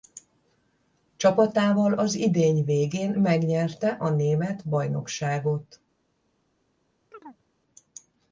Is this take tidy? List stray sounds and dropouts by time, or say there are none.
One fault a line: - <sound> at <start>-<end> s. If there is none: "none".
- chirp at 7.1-7.4 s